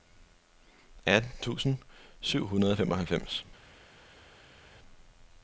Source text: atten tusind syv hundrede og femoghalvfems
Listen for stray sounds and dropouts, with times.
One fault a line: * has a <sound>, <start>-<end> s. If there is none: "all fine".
all fine